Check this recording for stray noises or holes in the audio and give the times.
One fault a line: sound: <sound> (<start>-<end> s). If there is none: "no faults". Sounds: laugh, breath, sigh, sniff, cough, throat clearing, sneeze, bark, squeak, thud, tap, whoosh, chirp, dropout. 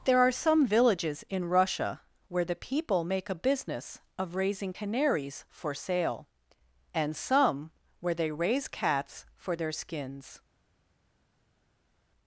no faults